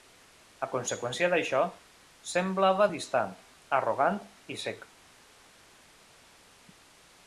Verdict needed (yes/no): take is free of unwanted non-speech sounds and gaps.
yes